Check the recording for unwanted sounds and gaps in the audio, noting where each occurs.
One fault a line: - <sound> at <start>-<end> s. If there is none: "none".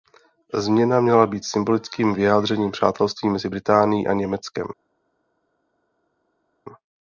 none